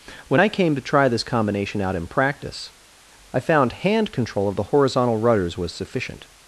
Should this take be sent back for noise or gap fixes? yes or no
no